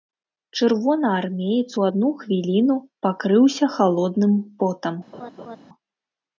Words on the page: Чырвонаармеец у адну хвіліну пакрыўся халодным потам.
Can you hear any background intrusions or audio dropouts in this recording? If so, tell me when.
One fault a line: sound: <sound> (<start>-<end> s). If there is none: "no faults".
sound: laugh (5.1-5.6 s)